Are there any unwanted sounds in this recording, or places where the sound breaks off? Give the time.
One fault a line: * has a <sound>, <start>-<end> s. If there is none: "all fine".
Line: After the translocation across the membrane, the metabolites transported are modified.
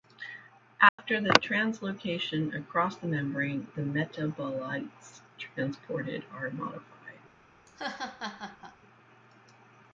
* has a dropout, 0.9-1.0 s
* has a laugh, 7.7-8.8 s